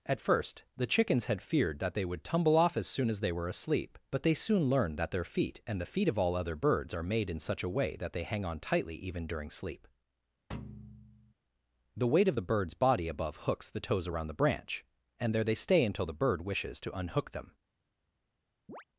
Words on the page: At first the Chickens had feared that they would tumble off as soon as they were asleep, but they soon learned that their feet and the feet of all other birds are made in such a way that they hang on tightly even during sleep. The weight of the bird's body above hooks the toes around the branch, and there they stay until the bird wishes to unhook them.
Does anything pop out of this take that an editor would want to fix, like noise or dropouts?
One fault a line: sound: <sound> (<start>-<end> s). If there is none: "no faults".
sound: thud (10.5-11.3 s)
sound: chirp (18.7-18.8 s)